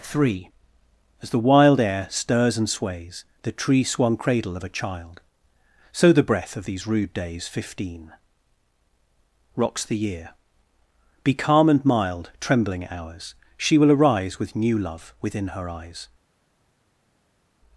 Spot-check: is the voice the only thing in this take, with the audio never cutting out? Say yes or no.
yes